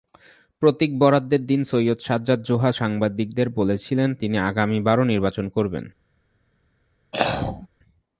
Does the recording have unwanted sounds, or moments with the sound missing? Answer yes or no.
yes